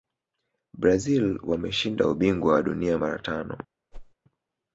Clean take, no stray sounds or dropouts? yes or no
no